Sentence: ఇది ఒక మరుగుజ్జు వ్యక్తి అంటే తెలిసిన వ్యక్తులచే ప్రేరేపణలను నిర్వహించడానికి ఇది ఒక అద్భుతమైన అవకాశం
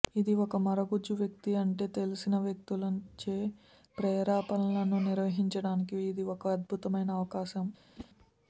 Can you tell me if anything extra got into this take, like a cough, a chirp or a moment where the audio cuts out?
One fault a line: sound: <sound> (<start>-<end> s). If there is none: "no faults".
sound: whoosh (8.0-8.1 s)